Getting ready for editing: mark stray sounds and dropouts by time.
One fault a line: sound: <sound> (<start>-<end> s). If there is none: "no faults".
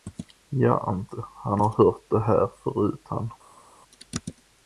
no faults